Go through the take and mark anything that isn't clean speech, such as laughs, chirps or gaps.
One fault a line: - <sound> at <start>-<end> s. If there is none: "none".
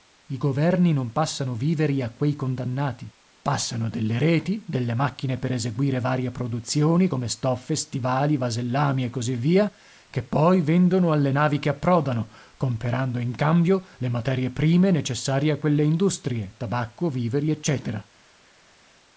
none